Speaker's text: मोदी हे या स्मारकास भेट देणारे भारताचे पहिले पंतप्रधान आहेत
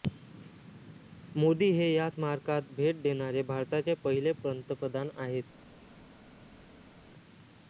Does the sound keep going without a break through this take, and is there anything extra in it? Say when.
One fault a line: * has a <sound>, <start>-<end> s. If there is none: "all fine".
all fine